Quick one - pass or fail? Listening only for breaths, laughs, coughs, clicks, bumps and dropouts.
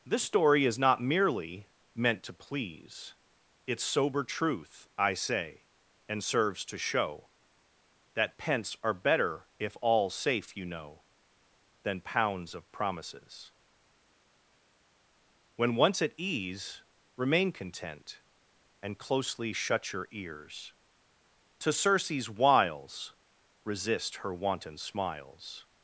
pass